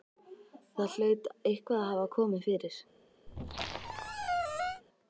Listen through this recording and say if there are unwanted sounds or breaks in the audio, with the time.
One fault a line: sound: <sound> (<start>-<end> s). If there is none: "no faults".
sound: squeak (3.3-4.8 s)